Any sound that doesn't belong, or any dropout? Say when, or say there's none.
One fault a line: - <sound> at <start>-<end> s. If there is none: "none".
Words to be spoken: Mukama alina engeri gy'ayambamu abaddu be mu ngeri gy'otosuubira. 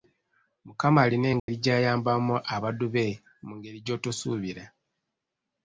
- dropout at 1.4-1.5 s